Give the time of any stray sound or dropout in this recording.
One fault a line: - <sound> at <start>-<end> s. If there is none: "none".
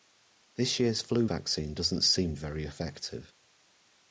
none